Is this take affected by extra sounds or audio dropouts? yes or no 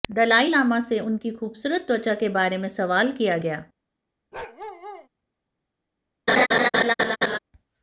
yes